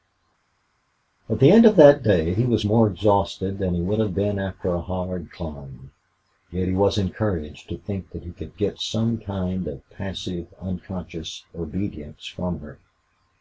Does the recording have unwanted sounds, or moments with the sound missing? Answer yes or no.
no